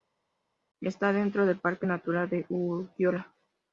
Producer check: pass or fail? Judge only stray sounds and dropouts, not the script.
pass